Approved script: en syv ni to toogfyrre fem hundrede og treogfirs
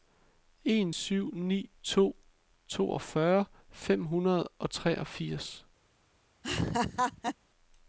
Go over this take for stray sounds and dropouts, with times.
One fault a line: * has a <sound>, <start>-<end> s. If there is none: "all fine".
* has a laugh, 6.4-7.4 s